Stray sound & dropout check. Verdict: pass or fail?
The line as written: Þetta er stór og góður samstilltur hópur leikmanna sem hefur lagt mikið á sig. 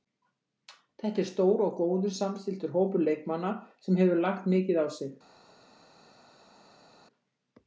pass